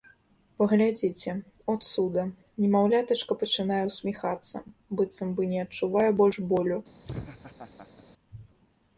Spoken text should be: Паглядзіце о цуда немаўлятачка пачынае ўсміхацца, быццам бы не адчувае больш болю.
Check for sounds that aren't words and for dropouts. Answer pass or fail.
fail